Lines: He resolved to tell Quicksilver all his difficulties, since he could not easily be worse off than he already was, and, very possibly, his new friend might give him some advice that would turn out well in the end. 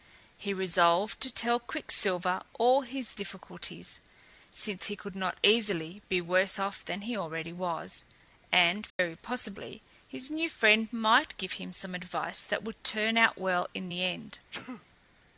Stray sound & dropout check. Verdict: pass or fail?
fail